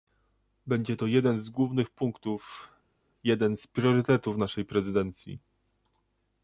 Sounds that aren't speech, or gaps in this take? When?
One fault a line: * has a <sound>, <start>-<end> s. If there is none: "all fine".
all fine